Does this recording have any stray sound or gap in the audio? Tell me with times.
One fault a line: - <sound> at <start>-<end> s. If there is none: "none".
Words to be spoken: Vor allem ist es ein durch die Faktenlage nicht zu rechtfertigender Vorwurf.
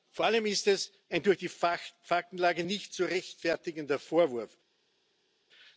none